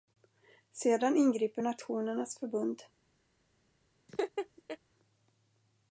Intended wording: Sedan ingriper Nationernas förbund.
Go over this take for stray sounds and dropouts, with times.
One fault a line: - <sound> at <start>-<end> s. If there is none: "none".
- laugh at 4.1-4.8 s